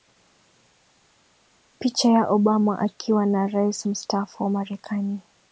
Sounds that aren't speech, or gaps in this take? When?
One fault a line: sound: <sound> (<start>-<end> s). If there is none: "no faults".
no faults